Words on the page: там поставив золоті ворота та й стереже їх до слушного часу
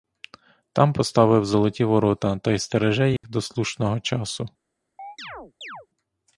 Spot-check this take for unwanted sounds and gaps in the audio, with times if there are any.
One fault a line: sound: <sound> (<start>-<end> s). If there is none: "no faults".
sound: dropout (3.2-3.2 s)
sound: chirp (5.0-5.9 s)